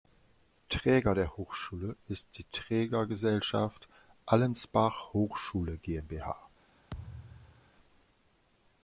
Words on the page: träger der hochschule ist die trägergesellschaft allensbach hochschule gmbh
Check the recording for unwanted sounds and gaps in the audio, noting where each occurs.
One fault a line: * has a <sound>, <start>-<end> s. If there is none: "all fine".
* has a thud, 6.9-7.7 s